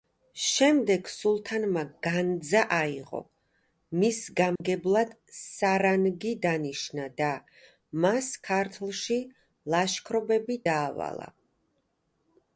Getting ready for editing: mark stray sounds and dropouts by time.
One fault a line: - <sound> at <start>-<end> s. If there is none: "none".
- dropout at 4.6-4.6 s